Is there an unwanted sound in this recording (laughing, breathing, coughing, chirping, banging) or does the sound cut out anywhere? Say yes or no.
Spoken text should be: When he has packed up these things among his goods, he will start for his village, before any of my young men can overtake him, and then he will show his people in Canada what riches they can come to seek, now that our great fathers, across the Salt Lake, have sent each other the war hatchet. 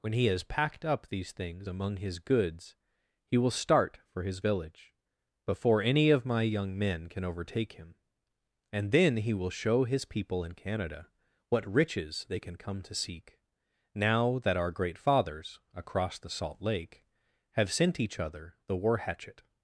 no